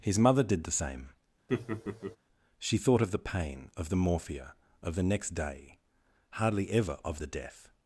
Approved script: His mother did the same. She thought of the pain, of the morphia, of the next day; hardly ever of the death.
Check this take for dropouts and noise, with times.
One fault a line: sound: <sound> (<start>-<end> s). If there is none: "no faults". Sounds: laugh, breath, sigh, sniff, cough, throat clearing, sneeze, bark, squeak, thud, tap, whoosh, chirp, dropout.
sound: laugh (1.5-2.2 s)